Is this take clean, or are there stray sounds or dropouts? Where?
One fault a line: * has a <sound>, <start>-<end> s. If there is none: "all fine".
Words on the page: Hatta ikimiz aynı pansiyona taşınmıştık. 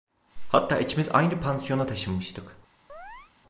* has a chirp, 2.9-3.3 s